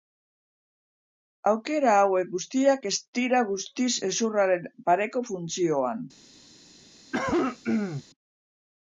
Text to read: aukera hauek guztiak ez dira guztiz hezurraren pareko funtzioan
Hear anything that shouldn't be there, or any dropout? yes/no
yes